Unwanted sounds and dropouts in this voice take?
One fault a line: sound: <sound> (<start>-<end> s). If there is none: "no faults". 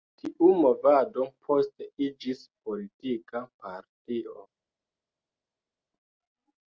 no faults